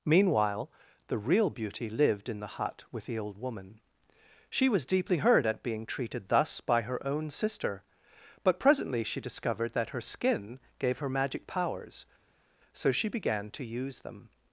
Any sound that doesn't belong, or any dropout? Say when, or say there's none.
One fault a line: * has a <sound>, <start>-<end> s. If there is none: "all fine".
all fine